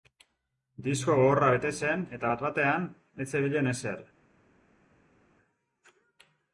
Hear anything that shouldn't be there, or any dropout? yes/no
no